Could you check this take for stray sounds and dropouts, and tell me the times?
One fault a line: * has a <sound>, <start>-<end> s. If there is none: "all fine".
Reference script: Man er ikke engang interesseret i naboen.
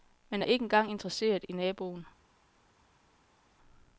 all fine